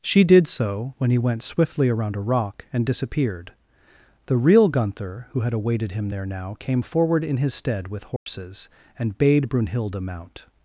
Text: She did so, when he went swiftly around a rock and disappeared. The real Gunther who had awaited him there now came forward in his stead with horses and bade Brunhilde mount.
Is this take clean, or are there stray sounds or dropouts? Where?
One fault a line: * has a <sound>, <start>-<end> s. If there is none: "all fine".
* has a dropout, 8.2-8.3 s